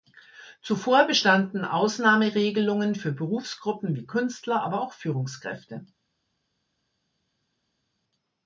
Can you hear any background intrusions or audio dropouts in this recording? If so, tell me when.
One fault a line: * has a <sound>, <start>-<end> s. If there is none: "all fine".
all fine